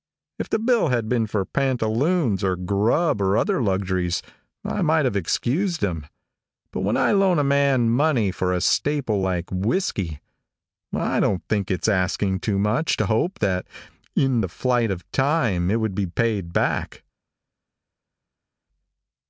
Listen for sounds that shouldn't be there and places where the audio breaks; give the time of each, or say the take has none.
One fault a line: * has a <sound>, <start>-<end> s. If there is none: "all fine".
all fine